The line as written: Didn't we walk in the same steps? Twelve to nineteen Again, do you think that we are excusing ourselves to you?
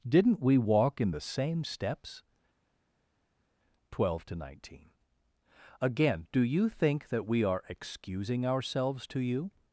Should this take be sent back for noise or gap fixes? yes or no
no